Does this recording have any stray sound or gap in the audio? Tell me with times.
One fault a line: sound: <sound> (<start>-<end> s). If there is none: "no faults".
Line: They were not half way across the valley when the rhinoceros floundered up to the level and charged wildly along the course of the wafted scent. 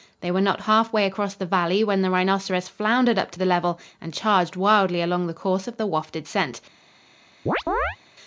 sound: chirp (7.5-8.0 s)